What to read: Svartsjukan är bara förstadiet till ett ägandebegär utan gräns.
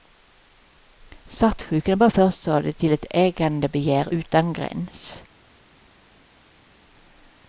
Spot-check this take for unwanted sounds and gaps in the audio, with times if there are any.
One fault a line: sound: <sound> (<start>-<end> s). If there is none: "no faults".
no faults